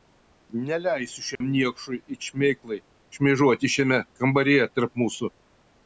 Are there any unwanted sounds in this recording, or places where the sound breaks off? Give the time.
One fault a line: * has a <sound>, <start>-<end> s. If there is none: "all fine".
* has a dropout, 1.4-1.4 s